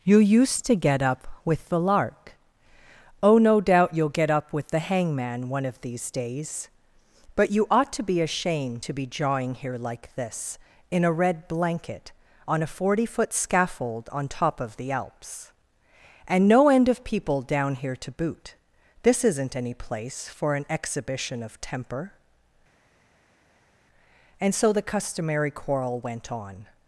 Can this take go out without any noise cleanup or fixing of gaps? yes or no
yes